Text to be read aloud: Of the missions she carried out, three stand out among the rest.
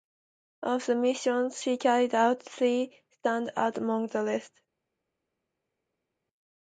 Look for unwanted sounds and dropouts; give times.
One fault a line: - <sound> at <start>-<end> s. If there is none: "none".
none